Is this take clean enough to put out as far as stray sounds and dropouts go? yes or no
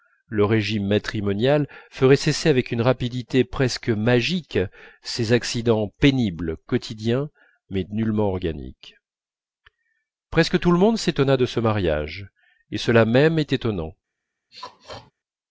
no